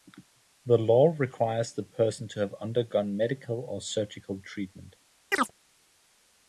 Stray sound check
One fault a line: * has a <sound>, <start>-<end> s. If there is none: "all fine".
* has a chirp, 5.3-5.5 s